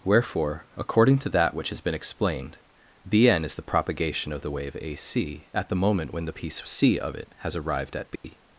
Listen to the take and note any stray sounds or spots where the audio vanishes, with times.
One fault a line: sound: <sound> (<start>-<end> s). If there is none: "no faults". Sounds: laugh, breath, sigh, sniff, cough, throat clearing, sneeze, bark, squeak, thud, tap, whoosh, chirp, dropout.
sound: dropout (8.2-8.2 s)